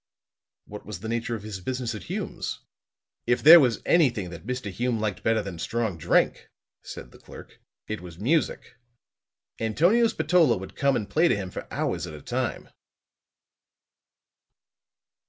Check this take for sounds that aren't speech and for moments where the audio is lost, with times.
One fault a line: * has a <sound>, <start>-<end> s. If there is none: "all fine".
all fine